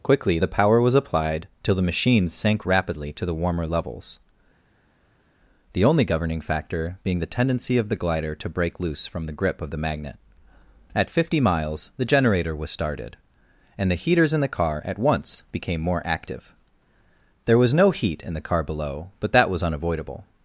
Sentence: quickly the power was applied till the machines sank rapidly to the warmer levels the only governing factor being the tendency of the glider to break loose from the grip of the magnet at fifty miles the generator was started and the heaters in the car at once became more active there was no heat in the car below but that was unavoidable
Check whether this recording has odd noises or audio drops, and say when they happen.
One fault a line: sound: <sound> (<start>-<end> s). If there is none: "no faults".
no faults